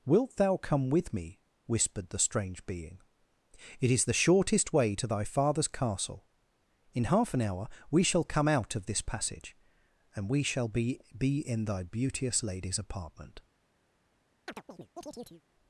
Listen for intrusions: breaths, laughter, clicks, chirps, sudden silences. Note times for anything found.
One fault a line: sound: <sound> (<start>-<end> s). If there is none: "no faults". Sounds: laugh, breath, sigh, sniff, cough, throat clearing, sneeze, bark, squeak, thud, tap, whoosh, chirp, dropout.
sound: chirp (14.5-15.4 s)